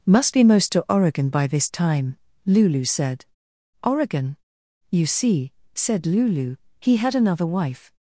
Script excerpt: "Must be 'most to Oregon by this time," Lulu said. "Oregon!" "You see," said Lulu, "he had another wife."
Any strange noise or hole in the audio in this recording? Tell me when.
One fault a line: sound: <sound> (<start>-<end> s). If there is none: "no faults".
no faults